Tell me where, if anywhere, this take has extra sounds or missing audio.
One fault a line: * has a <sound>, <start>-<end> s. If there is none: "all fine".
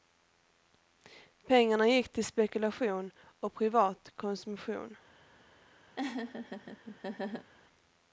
* has a laugh, 6.0-7.5 s